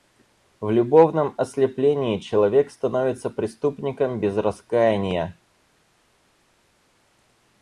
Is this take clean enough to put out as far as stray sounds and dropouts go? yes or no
yes